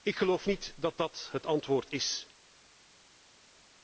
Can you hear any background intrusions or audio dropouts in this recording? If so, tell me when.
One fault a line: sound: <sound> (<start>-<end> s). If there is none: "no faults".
no faults